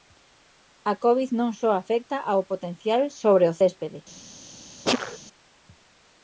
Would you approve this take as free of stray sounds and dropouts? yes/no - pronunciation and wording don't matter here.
no